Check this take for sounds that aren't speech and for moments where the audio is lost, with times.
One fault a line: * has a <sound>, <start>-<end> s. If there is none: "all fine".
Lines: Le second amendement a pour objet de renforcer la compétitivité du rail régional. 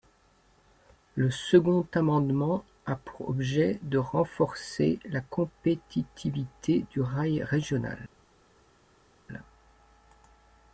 all fine